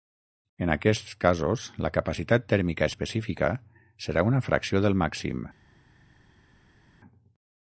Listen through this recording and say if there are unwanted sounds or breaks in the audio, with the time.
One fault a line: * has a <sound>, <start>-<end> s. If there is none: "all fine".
all fine